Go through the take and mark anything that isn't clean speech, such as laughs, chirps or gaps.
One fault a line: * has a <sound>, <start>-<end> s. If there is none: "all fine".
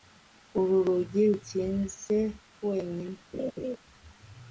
* has a laugh, 3.3-3.8 s